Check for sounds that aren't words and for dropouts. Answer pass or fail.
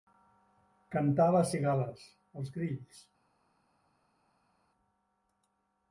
pass